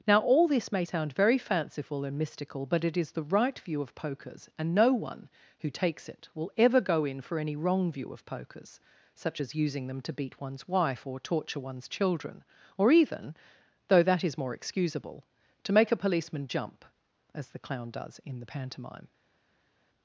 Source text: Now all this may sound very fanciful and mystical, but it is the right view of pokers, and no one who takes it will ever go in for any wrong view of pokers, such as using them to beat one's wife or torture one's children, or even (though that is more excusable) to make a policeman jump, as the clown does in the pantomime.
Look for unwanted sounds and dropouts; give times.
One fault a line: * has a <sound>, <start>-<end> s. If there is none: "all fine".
all fine